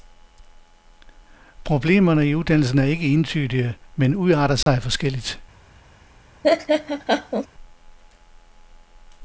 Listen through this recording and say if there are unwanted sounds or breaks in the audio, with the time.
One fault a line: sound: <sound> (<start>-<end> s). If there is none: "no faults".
sound: dropout (4.6-4.7 s)
sound: laugh (6.4-7.5 s)